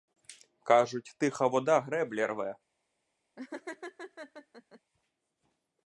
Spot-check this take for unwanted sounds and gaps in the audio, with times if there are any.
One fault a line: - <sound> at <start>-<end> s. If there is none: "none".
- laugh at 3.4-4.8 s